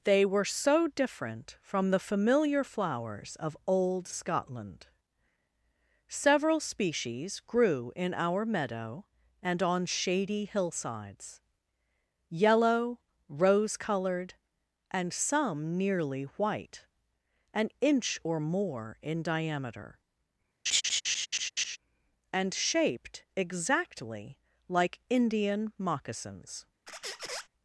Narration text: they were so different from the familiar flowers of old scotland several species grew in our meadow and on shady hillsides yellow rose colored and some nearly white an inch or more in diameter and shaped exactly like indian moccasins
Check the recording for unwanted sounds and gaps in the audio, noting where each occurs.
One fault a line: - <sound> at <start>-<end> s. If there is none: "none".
- laugh at 20.7-21.8 s
- squeak at 26.9-27.5 s